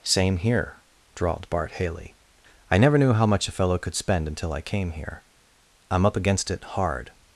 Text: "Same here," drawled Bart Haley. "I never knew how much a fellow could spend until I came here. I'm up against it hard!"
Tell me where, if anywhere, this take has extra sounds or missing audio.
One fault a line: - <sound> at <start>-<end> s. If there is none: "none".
none